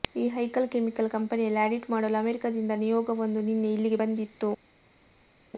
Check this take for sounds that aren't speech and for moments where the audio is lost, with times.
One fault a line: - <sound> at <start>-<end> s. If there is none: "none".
none